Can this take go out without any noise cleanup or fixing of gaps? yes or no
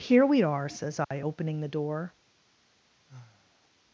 no